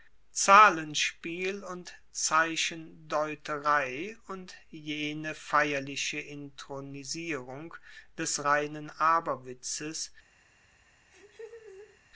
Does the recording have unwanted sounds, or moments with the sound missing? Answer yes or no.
yes